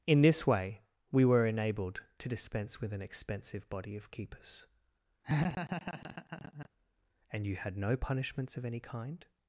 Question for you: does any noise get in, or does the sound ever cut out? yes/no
yes